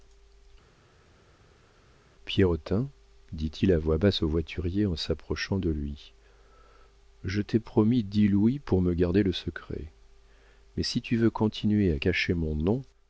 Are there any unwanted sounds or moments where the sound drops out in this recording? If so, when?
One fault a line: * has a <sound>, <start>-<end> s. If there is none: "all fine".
all fine